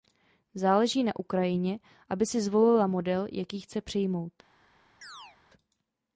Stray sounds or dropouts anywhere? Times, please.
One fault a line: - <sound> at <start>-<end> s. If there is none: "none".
- chirp at 5.0-5.4 s